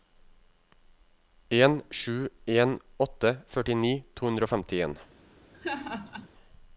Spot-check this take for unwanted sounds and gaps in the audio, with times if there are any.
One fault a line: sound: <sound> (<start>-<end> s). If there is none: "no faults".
sound: laugh (5.5-6.3 s)